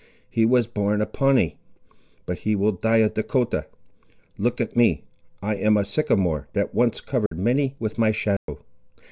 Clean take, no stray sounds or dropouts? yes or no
no